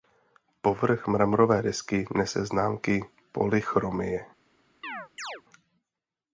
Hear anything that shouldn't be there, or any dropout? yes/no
yes